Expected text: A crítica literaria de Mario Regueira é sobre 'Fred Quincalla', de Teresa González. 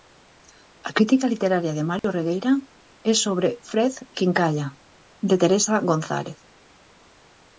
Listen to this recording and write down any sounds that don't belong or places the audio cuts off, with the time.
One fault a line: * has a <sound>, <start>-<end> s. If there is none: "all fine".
* has a dropout, 2.0-2.0 s